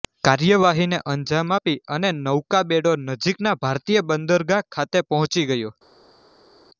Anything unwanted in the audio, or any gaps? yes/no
no